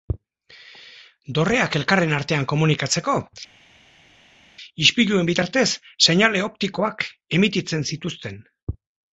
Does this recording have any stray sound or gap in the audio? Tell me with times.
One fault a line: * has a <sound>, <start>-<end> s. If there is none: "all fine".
all fine